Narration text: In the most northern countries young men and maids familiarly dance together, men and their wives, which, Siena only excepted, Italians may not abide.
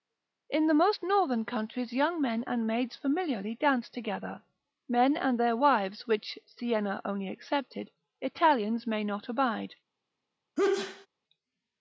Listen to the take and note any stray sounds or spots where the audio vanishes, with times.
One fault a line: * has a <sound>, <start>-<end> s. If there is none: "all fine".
* has a sneeze, 10.6-11.1 s